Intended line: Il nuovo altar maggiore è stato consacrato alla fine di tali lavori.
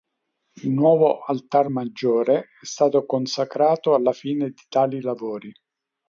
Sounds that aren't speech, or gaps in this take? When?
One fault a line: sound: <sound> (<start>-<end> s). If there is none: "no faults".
no faults